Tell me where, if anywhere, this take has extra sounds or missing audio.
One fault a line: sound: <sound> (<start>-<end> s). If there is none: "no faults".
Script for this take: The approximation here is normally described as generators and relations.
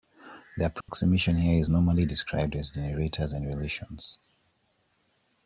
sound: dropout (0.8-0.9 s)